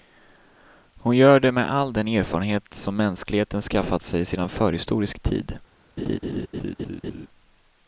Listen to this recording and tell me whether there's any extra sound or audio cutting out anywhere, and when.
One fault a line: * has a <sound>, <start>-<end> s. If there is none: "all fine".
* has a laugh, 6.0-7.3 s